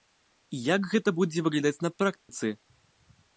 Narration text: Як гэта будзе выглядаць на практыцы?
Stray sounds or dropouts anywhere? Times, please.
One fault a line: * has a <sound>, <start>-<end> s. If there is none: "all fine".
* has a dropout, 2.2-2.3 s